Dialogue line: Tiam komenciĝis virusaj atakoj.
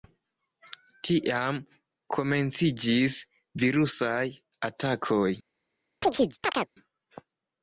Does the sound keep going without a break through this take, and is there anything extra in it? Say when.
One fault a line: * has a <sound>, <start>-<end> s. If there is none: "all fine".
* has a chirp, 6.0-6.7 s